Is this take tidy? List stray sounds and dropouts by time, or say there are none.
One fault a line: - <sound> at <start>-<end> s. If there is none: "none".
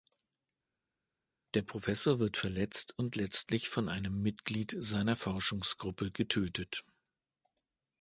none